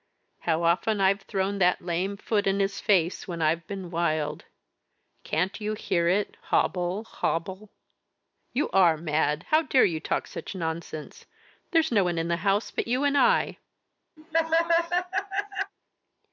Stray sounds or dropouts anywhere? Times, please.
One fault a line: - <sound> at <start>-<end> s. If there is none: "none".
- laugh at 14.2-15.7 s